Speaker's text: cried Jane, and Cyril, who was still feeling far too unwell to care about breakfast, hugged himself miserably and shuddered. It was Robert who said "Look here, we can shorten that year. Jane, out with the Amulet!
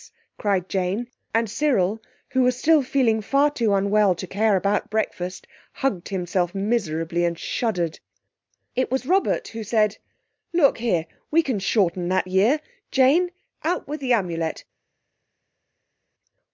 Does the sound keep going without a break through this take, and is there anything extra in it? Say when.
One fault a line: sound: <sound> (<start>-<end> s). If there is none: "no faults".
no faults